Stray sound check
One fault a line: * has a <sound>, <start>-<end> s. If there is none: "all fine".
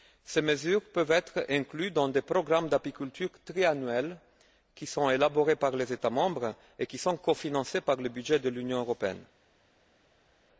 all fine